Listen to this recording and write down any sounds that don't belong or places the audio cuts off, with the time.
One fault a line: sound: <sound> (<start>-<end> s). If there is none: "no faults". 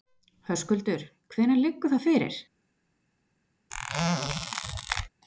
sound: squeak (3.7-5.1 s)